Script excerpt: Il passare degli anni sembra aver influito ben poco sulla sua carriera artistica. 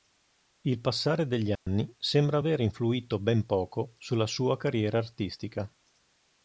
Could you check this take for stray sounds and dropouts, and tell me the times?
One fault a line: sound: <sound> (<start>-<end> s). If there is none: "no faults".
sound: dropout (1.6-1.7 s)